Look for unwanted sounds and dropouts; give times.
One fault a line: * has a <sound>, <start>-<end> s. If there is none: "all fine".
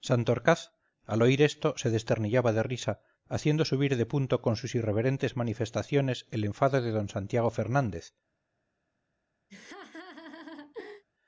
* has a laugh, 9.5-11.0 s